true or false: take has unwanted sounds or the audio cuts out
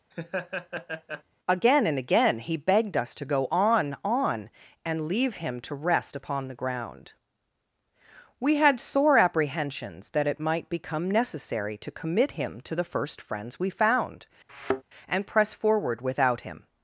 true